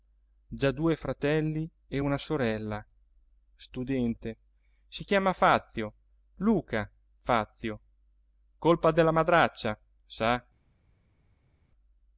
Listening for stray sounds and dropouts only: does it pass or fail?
pass